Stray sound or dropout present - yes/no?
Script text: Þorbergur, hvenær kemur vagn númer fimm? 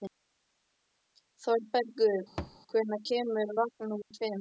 yes